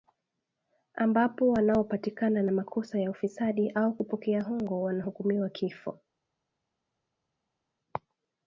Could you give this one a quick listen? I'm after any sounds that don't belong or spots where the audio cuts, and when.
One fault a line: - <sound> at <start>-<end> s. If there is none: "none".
none